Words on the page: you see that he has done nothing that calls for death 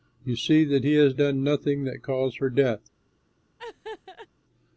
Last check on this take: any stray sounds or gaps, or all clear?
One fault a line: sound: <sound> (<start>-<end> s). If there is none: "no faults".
sound: laugh (3.6-4.3 s)